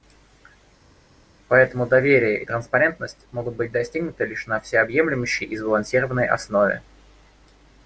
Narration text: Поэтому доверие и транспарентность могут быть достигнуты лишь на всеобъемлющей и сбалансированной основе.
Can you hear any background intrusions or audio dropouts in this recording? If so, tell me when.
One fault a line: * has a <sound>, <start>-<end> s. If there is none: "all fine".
all fine